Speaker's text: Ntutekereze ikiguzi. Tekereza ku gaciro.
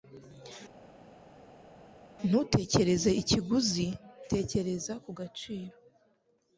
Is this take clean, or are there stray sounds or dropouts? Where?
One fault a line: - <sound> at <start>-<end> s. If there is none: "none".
none